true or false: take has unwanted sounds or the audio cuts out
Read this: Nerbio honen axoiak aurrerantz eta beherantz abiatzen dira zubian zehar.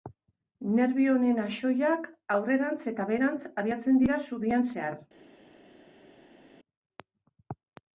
false